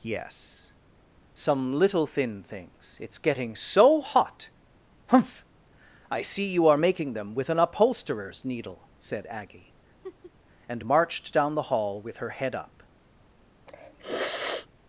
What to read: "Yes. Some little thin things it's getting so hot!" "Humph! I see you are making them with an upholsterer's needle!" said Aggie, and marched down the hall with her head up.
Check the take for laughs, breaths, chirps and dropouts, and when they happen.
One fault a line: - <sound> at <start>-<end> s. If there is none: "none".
- laugh at 10.0-10.3 s
- sniff at 13.7-14.7 s